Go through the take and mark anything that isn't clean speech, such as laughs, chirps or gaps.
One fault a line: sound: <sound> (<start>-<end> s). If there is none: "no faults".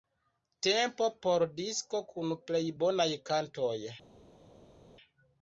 no faults